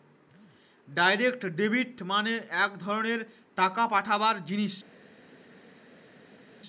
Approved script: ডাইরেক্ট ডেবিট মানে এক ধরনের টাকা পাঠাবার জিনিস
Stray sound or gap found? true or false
false